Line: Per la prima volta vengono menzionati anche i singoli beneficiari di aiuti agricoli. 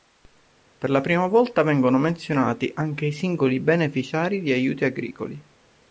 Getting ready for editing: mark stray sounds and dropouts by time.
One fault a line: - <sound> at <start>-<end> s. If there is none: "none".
none